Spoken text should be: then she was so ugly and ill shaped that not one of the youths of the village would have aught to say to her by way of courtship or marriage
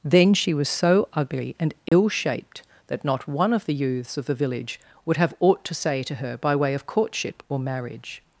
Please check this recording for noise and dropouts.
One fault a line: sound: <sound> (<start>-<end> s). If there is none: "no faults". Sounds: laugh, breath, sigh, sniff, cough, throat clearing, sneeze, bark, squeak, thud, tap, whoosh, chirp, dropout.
sound: dropout (1.9-1.9 s)